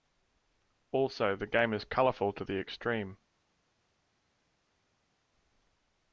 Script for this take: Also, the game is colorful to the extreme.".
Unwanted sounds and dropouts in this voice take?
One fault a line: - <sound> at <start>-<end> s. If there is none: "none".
none